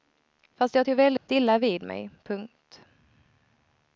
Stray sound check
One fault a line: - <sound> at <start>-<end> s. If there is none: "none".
- dropout at 1.2-1.3 s